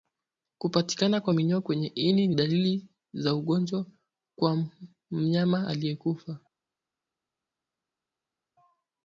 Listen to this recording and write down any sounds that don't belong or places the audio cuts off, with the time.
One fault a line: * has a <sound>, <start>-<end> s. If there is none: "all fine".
all fine